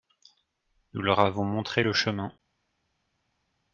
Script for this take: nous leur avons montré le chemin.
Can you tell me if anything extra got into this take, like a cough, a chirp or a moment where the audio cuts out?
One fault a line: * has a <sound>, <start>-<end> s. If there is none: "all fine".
all fine